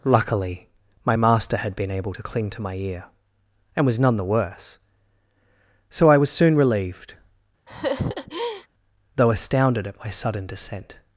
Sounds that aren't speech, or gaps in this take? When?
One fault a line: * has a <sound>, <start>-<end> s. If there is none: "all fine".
* has a laugh, 7.7-8.7 s